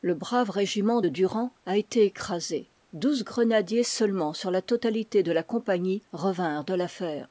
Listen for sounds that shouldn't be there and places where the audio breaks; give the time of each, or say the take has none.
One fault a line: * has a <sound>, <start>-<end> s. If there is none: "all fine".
all fine